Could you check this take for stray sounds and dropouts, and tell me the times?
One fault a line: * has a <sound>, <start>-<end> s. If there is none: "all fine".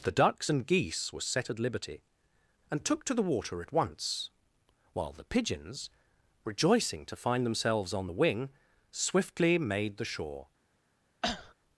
* has a cough, 11.2-11.5 s